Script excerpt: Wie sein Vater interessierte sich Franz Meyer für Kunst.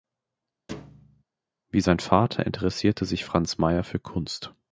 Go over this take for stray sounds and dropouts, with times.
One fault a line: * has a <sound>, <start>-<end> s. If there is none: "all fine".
* has a thud, 0.7-1.2 s